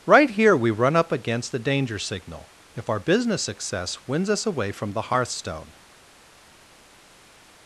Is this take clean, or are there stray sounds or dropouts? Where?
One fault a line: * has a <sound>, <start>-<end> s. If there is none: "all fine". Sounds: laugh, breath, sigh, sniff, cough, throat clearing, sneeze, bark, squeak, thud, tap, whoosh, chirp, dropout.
all fine